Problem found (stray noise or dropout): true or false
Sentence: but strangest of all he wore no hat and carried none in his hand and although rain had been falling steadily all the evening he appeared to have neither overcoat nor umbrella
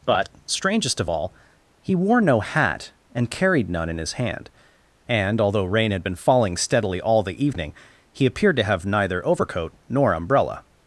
false